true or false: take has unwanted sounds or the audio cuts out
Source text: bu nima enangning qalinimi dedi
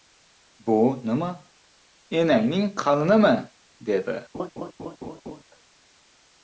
true